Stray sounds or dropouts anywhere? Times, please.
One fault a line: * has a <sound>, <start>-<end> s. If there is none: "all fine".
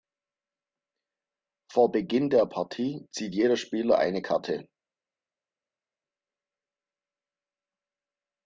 all fine